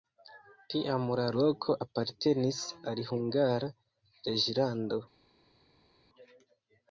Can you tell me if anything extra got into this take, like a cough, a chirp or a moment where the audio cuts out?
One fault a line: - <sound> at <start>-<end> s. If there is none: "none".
none